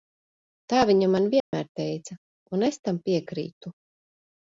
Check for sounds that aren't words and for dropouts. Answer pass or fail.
fail